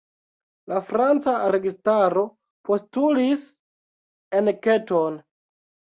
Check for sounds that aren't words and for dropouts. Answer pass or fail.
pass